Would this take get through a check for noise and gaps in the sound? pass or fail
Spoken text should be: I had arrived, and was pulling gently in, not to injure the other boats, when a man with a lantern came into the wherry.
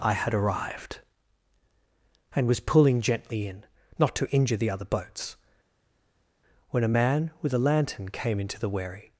pass